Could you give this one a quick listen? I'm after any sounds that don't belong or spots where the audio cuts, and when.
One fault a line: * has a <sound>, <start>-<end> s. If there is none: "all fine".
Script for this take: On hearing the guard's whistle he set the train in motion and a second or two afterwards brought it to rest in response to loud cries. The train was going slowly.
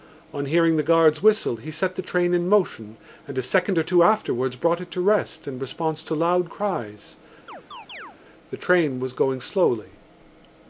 * has a chirp, 7.5-8.2 s